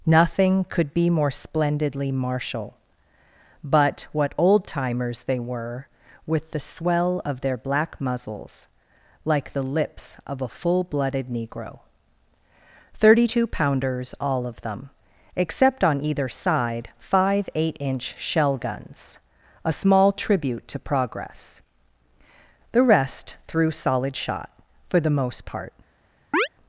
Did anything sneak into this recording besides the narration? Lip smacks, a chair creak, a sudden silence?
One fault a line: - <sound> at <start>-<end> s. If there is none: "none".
- chirp at 26.3-26.5 s